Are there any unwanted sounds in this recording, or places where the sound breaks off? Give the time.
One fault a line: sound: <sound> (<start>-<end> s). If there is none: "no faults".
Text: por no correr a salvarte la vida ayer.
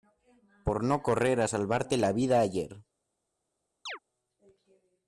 sound: chirp (3.9-4.0 s)